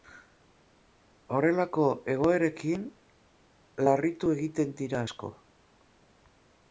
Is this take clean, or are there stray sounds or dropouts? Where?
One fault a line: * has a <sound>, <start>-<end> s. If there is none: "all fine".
all fine